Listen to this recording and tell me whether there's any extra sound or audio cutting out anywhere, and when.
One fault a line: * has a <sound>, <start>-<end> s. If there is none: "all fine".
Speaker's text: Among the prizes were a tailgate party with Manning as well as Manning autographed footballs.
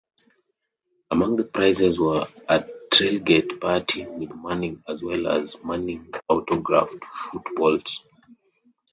all fine